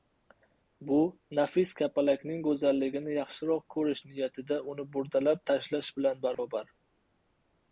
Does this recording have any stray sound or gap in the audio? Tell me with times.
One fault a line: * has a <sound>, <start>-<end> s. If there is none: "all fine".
* has a dropout, 6.3-6.4 s